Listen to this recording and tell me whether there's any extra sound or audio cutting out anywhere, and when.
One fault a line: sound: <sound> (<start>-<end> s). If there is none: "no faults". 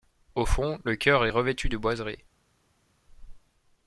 no faults